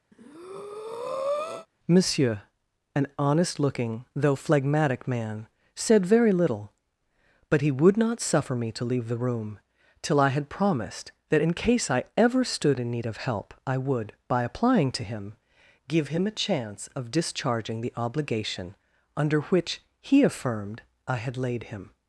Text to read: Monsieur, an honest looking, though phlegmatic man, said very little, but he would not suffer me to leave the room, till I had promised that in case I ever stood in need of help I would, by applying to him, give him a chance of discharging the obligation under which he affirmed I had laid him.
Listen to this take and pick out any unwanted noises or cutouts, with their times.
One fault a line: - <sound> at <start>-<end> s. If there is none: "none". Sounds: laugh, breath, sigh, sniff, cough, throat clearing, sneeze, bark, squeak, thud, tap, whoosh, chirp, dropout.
- breath at 0.1-1.7 s